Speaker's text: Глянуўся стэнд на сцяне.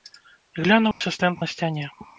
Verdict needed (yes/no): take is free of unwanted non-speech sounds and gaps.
no